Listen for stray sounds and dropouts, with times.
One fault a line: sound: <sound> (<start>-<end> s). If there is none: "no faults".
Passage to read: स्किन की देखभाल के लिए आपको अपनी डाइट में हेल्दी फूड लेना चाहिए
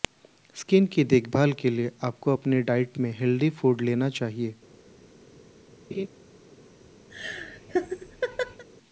sound: laugh (5.9-6.1 s)
sound: laugh (7.1-8.6 s)